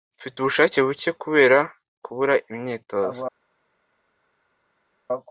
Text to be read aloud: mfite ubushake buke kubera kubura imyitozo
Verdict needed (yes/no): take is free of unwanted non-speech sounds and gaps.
yes